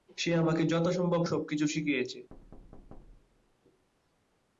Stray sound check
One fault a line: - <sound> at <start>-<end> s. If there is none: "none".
- thud at 2.3-3.6 s